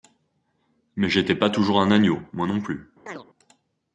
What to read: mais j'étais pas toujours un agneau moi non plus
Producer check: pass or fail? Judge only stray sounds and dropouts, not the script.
fail